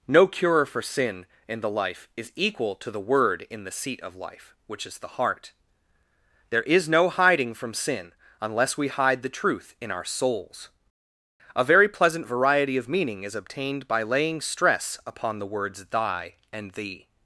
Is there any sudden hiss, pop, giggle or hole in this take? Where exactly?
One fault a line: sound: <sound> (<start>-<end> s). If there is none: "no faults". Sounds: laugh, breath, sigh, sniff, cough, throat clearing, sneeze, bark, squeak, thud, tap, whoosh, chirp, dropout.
no faults